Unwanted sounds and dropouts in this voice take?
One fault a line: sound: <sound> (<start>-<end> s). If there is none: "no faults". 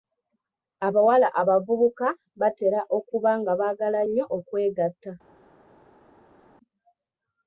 no faults